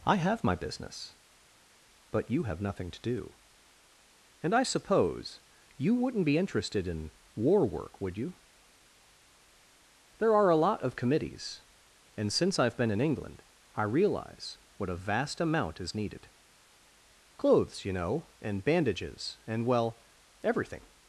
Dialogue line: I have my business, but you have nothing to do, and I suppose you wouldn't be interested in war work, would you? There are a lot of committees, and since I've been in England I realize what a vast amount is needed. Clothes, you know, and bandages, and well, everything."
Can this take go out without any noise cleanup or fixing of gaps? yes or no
yes